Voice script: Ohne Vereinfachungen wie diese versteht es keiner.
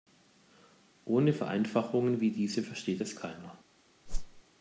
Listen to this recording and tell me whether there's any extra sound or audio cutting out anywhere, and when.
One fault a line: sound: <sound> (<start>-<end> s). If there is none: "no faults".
sound: whoosh (4.1-4.4 s)